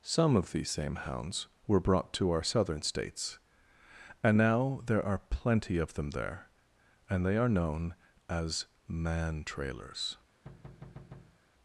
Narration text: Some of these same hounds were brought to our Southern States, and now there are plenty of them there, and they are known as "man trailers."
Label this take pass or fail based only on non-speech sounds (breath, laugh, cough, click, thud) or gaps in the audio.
fail